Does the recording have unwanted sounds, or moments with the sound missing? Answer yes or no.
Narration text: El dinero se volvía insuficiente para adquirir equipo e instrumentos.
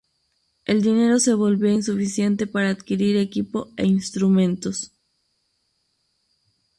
no